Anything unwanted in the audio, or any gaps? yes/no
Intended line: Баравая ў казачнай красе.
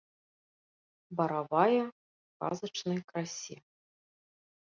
no